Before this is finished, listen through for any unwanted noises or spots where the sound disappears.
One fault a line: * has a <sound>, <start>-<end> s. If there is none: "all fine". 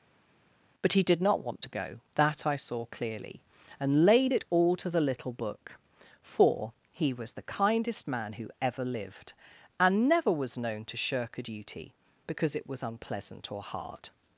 all fine